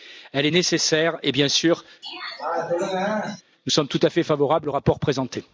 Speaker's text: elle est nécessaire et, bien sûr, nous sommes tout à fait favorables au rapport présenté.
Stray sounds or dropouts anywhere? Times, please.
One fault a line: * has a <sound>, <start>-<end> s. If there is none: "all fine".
* has a throat clearing, 2.0-3.4 s